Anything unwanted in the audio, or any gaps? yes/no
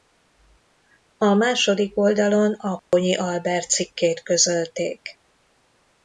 yes